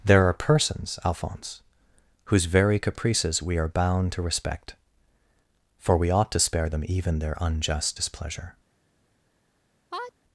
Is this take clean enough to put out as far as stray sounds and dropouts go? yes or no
no